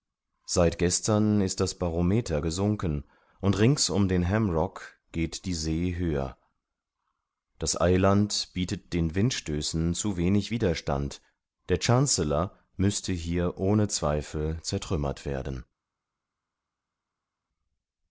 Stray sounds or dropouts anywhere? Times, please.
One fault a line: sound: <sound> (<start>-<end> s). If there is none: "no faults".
no faults